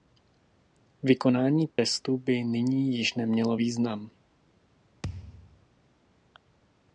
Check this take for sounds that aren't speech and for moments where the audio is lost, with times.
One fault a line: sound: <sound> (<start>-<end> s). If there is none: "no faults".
sound: dropout (1.7-1.8 s)
sound: thud (5.0-5.7 s)